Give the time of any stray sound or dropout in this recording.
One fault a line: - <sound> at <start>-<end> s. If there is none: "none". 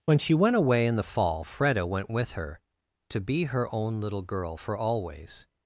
none